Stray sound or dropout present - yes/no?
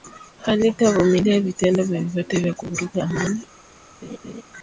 yes